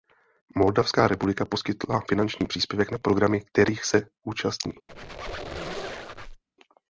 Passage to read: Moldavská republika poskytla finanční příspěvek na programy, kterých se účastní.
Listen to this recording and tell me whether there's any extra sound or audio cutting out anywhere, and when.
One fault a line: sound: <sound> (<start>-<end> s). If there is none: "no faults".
sound: squeak (4.9-6.4 s)